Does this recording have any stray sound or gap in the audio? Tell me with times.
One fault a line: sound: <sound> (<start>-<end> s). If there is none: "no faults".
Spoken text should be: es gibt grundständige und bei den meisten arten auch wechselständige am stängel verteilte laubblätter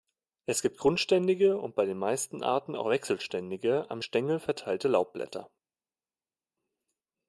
no faults